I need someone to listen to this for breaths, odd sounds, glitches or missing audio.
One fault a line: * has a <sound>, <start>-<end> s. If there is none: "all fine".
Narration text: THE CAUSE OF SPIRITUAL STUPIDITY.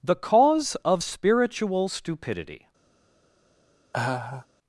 * has a laugh, 3.9-4.5 s